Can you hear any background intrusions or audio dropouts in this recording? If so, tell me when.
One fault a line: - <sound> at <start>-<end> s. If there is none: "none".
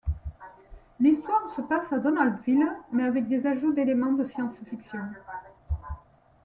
none